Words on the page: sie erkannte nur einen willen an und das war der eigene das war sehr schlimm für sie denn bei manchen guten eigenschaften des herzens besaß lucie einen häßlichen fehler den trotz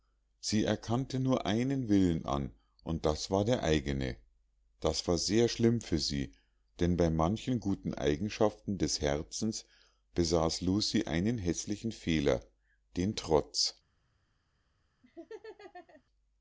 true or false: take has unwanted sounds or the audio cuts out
true